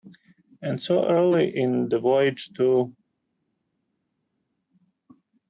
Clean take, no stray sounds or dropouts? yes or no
yes